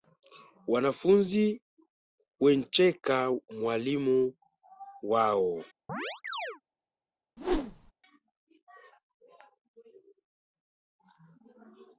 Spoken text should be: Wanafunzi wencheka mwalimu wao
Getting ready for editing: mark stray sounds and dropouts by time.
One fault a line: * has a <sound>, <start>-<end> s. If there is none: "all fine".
* has a chirp, 5.9-6.6 s
* has a whoosh, 7.4-7.9 s